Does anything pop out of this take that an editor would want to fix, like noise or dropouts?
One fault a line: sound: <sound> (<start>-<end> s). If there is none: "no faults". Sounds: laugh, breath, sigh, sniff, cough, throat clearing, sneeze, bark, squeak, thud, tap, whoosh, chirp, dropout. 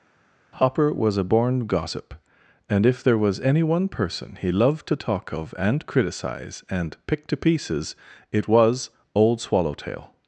no faults